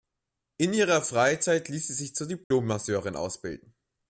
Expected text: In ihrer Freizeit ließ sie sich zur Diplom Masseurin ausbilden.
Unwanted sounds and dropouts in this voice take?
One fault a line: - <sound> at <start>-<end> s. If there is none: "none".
- dropout at 2.4-2.5 s